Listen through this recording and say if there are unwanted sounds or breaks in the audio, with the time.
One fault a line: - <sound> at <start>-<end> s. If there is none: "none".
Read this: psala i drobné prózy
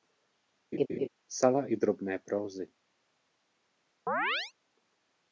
- laugh at 0.7-1.1 s
- chirp at 4.1-4.5 s